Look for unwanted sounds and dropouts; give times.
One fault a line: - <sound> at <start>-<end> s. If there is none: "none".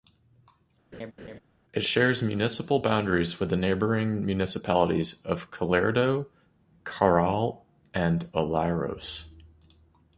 - laugh at 0.9-1.4 s